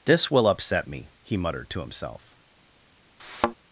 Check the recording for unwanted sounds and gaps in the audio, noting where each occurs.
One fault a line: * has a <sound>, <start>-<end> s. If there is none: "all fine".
* has a thud, 3.2-3.5 s